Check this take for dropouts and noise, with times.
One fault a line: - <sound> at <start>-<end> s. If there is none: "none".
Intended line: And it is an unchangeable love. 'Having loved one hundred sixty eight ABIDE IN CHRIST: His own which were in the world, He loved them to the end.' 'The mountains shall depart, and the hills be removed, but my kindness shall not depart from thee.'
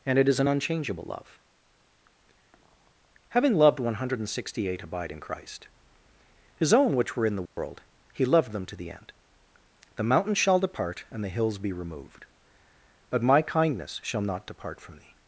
- dropout at 7.5-7.6 s